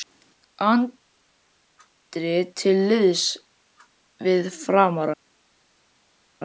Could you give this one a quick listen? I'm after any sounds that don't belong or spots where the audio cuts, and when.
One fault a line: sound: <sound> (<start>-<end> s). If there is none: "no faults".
no faults